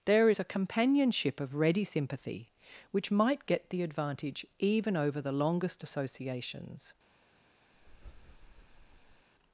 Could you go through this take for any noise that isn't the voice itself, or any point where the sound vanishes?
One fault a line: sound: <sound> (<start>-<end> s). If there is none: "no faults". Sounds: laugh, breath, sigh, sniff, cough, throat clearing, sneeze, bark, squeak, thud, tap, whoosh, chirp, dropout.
sound: breath (7.7-9.3 s)